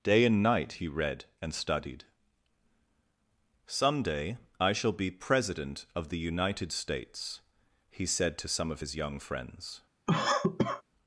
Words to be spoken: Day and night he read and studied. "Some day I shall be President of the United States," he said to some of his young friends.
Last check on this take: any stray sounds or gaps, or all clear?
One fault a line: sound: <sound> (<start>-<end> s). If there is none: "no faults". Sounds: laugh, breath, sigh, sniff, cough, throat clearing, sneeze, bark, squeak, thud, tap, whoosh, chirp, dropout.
sound: cough (10.1-10.8 s)